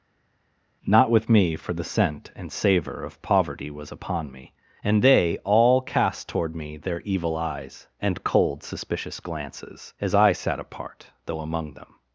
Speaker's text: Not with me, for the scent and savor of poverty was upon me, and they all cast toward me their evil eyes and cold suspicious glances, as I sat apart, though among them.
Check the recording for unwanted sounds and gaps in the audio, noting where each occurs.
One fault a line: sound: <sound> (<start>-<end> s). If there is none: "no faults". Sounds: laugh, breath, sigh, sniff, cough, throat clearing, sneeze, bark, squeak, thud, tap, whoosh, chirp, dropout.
no faults